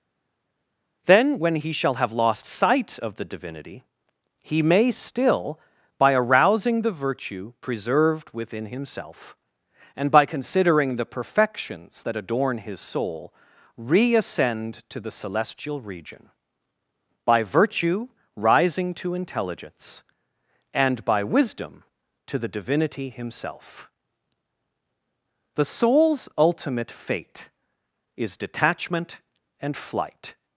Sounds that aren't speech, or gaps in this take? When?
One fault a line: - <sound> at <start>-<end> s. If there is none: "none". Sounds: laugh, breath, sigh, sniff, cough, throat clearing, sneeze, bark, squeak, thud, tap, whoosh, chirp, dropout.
none